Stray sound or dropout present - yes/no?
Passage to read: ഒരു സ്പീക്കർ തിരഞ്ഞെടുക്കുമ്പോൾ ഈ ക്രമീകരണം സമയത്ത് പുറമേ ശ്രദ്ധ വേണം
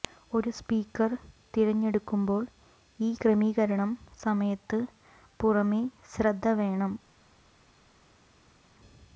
no